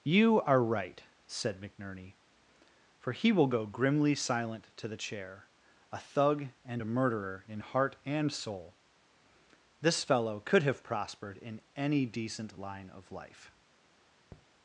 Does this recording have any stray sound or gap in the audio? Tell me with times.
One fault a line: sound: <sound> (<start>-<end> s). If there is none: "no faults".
sound: tap (14.3-14.5 s)